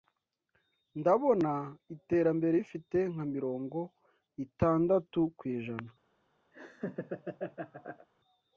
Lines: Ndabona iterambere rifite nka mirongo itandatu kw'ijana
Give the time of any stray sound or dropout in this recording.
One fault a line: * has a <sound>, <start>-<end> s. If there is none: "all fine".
* has a laugh, 6.5-8.1 s